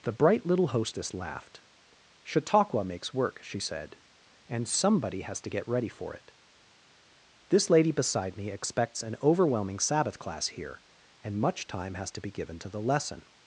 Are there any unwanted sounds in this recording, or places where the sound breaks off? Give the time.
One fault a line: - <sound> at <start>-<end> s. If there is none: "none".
none